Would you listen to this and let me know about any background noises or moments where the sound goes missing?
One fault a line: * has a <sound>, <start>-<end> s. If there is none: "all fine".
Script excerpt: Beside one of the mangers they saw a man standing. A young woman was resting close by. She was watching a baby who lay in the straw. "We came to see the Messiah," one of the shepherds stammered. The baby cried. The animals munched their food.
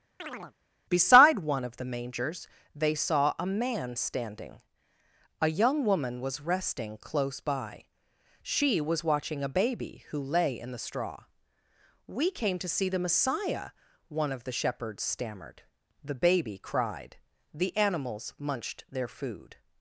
* has a chirp, 0.2-0.5 s